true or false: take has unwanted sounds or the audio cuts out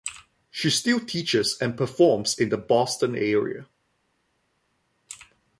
false